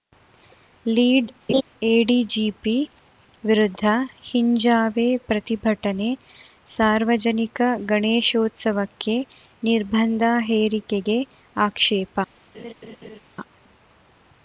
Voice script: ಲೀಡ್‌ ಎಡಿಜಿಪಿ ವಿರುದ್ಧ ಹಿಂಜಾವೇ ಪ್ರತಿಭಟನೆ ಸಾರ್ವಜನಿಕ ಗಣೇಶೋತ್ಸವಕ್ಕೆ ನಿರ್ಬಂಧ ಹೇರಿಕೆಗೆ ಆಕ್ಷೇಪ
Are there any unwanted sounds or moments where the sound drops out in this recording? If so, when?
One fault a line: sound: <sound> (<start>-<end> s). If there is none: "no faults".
sound: laugh (1.5-1.6 s)
sound: laugh (12.5-13.2 s)